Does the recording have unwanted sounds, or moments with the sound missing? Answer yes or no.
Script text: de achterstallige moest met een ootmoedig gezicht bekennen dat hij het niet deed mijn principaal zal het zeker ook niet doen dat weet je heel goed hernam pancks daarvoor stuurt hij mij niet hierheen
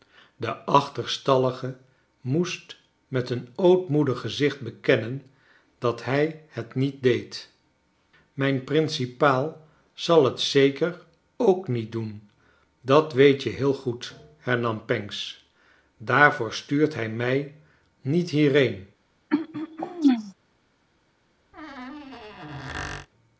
yes